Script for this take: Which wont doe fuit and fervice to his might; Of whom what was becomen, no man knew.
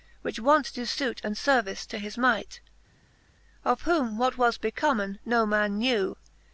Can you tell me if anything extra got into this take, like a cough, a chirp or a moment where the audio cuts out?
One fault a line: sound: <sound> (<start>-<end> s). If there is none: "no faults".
no faults